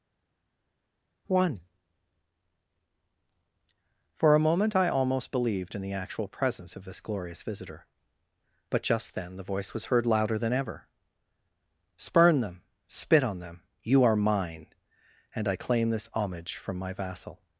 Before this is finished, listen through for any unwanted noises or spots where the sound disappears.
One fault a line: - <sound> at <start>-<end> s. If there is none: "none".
none